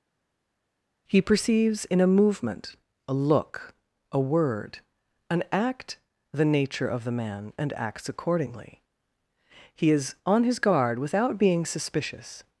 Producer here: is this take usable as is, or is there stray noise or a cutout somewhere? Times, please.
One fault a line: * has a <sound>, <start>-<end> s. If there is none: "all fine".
all fine